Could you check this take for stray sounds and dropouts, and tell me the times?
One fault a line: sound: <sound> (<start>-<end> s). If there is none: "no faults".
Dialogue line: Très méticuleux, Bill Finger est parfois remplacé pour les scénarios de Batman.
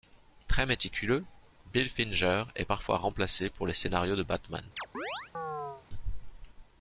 sound: chirp (4.8-5.8 s)